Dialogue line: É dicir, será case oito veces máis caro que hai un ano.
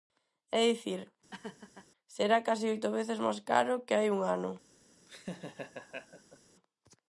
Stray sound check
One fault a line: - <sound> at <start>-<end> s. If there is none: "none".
- laugh at 1.3-1.9 s
- laugh at 5.1-6.4 s